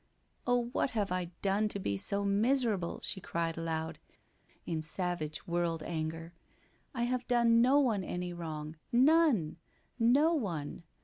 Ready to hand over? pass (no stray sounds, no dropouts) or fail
pass